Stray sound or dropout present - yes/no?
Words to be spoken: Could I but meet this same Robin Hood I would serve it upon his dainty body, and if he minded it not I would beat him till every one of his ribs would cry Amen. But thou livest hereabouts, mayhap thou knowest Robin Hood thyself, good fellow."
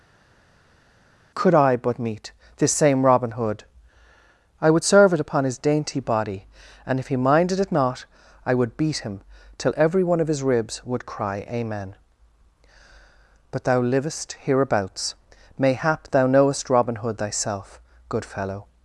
no